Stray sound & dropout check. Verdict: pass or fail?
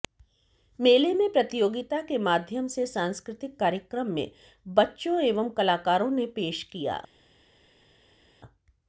pass